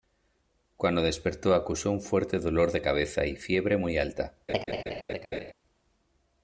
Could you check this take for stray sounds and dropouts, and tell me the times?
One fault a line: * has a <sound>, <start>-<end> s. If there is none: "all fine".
* has a laugh, 4.5-5.5 s